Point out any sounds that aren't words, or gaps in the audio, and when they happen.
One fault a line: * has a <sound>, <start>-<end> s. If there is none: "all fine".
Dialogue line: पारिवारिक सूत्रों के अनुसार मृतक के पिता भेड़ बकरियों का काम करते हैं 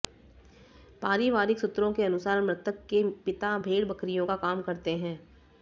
all fine